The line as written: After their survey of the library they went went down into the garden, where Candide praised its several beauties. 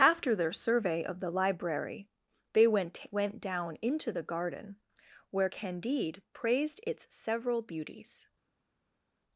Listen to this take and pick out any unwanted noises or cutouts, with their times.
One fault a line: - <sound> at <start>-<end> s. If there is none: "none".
none